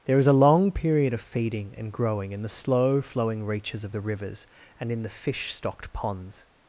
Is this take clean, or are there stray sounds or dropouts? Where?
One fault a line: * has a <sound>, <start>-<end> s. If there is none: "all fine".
all fine